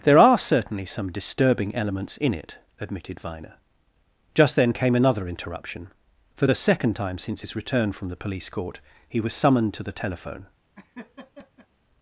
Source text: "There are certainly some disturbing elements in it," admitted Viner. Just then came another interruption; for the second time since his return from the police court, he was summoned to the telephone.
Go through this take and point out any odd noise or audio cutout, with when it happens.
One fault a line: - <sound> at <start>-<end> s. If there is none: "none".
- laugh at 10.7-11.7 s